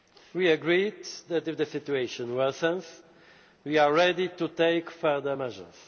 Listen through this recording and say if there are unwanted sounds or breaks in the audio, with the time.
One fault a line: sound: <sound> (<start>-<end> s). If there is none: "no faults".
no faults